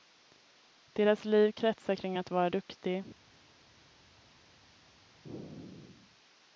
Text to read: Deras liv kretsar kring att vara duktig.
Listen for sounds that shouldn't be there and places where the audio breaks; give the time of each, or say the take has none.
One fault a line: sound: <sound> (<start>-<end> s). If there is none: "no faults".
no faults